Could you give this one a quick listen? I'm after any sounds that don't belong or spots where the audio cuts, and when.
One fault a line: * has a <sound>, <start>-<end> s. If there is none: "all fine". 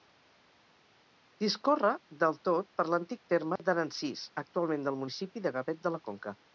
* has a dropout, 3.6-3.6 s